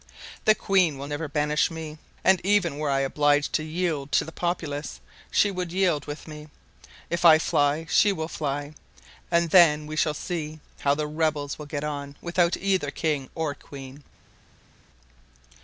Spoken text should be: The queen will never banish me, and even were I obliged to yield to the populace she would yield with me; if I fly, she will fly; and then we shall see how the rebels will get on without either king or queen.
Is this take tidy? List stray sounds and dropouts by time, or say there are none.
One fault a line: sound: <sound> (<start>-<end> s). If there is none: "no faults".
no faults